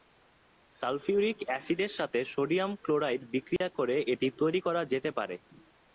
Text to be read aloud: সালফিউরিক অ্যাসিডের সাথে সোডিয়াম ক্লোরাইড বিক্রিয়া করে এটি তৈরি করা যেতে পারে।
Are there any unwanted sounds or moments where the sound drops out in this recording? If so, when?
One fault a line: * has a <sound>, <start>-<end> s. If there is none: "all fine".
* has a dropout, 3.6-3.6 s